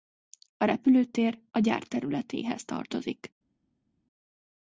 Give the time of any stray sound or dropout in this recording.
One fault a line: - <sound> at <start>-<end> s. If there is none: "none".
none